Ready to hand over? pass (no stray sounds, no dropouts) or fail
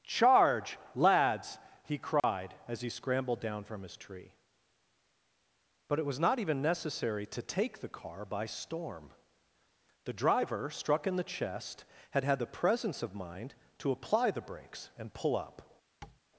fail